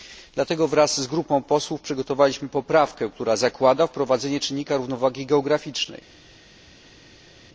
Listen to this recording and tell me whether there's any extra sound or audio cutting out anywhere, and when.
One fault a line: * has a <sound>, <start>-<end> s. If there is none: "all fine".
all fine